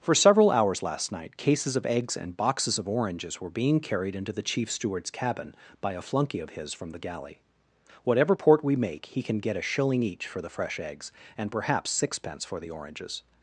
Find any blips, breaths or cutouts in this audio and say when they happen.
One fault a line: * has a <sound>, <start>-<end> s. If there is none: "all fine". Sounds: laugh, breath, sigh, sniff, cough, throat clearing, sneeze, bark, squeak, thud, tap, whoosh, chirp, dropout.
all fine